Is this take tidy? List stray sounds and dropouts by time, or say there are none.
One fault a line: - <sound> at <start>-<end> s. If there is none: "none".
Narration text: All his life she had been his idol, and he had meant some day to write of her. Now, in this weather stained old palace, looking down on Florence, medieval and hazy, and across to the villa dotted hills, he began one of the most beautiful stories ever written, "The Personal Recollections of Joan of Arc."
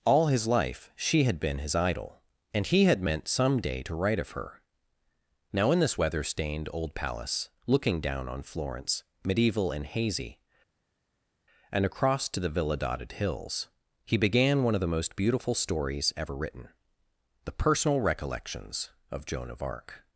none